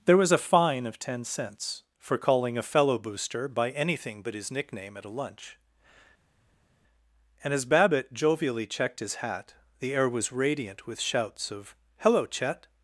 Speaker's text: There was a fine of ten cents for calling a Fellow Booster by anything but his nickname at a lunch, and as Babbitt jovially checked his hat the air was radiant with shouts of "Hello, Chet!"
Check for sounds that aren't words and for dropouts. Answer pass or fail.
pass